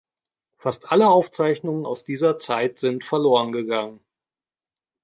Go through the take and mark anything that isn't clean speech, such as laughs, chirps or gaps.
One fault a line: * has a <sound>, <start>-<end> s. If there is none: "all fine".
all fine